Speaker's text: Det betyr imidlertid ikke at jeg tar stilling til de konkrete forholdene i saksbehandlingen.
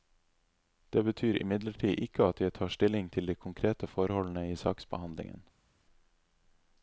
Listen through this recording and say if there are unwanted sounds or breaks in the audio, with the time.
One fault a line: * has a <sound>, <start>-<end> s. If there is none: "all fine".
all fine